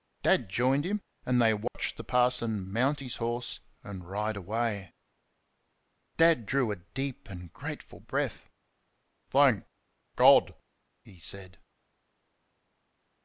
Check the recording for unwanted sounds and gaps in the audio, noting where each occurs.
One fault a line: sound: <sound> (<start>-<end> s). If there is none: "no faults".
sound: dropout (1.7-1.7 s)